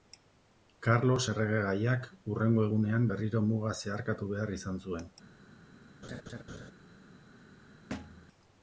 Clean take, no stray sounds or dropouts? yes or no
no